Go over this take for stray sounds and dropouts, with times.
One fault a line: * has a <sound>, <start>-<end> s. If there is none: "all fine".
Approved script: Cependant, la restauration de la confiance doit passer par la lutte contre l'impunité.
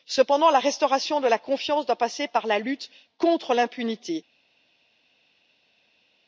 all fine